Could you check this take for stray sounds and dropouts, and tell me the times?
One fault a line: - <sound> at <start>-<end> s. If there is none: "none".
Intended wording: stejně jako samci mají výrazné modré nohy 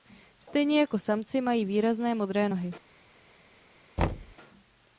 - thud at 4.0-4.4 s